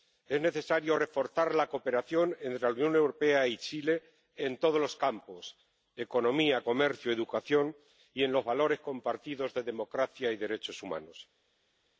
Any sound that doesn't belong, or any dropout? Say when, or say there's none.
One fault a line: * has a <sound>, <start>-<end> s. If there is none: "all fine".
all fine